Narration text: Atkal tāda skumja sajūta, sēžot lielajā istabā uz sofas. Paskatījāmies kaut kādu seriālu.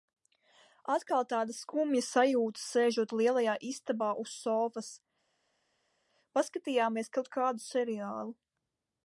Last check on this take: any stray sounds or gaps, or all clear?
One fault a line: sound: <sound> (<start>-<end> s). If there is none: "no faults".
no faults